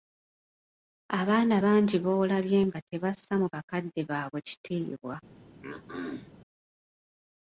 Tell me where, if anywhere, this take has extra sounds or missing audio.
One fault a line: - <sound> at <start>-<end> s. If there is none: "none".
- throat clearing at 5.6-6.3 s